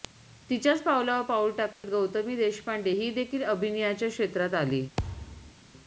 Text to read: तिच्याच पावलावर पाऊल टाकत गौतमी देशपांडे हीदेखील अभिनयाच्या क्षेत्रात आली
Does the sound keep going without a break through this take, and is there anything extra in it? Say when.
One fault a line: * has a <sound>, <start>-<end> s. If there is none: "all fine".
* has a dropout, 1.7-1.8 s
* has a thud, 5.0-5.5 s